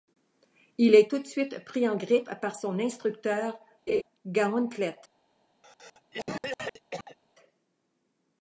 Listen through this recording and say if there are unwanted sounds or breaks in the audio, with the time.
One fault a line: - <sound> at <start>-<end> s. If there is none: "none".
- laugh at 3.9-4.0 s
- cough at 5.6-7.2 s